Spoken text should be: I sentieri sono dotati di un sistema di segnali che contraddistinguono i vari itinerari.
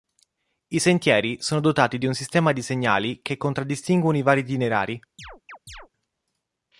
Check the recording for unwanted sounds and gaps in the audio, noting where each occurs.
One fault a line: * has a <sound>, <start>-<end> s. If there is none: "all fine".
* has a chirp, 5.2-5.9 s